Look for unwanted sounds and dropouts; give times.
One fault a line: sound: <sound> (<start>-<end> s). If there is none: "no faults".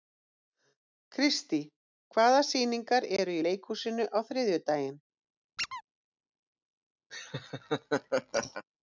sound: squeak (5.6-5.8 s)
sound: laugh (7.1-8.6 s)